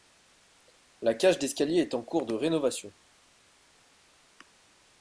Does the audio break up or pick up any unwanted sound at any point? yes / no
no